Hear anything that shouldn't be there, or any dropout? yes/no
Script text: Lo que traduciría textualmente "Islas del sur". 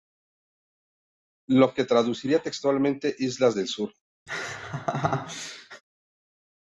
yes